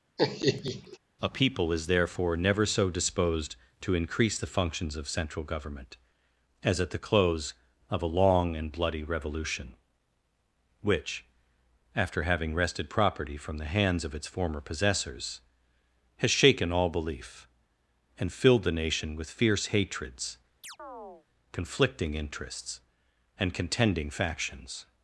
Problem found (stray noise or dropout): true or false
true